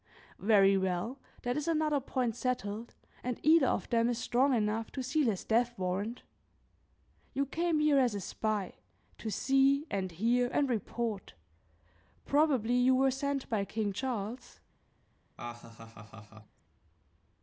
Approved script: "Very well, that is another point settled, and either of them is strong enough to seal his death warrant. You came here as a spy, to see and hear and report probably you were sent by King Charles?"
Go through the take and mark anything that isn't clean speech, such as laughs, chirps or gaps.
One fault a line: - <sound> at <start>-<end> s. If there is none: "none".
- laugh at 15.4-16.6 s